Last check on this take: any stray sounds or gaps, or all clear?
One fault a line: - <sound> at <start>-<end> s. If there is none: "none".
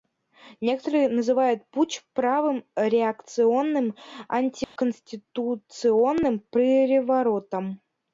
- dropout at 4.6-4.8 s